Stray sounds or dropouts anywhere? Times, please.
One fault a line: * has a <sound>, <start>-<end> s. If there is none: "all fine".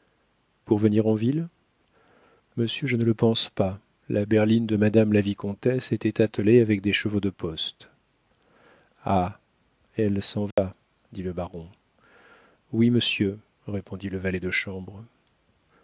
* has a dropout, 10.5-10.6 s